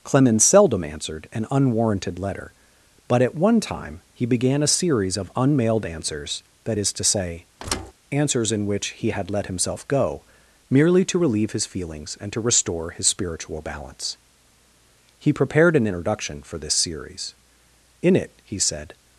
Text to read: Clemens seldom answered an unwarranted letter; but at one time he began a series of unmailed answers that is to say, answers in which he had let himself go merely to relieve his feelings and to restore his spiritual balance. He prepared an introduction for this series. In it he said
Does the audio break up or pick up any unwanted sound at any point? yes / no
yes